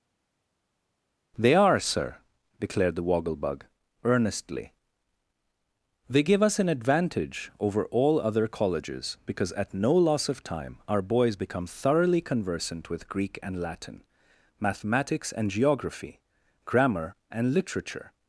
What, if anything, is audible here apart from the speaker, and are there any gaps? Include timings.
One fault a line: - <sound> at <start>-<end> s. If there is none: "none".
none